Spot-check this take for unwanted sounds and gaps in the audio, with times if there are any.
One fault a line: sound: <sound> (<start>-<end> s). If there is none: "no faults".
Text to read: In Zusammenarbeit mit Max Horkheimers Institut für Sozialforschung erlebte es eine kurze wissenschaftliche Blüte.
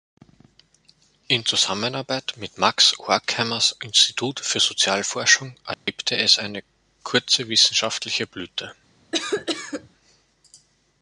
sound: dropout (5.7-5.9 s)
sound: cough (9.1-9.9 s)